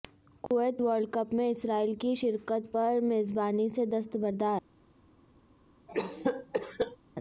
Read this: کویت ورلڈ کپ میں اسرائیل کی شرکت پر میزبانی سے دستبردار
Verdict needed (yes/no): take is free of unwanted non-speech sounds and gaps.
no